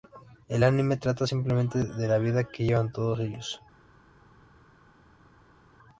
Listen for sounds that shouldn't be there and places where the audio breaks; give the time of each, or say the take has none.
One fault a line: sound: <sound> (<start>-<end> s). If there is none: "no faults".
no faults